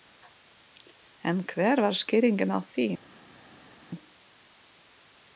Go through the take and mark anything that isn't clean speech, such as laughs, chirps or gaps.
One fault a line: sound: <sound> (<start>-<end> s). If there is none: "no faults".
no faults